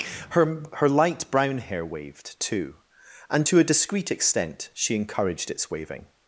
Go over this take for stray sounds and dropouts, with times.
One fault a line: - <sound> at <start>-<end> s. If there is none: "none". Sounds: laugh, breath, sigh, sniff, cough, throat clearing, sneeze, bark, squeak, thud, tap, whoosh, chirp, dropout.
none